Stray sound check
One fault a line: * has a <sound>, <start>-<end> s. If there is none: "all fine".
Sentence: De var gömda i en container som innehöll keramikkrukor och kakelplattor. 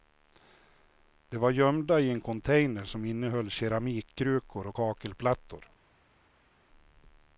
all fine